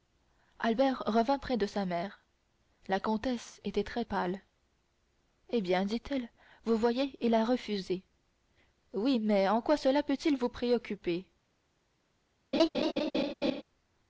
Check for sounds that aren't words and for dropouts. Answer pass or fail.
fail